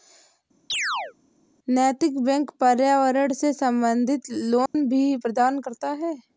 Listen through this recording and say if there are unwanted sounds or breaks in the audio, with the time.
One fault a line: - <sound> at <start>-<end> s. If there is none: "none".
- chirp at 0.7-1.1 s
- dropout at 4.7-4.7 s